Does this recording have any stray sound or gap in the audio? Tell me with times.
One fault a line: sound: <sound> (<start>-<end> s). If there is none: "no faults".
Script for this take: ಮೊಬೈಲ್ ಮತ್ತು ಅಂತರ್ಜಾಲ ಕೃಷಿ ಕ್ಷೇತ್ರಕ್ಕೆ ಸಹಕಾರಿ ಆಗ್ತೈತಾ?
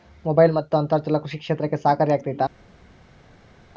no faults